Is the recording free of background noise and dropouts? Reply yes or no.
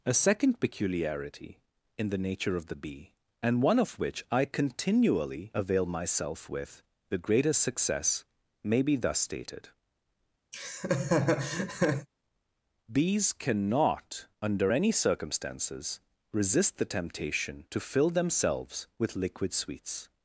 no